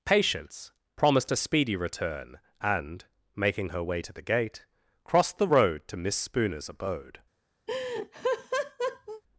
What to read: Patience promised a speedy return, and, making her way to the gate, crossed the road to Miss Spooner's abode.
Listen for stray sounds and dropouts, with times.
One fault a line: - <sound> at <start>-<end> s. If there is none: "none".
- laugh at 7.7-9.2 s